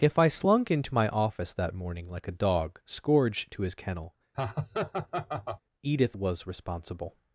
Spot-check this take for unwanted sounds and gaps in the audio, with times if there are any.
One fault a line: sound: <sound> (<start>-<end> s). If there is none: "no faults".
sound: laugh (4.3-5.6 s)